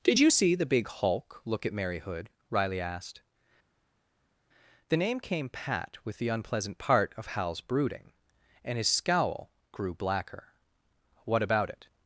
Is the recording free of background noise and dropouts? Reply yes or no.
yes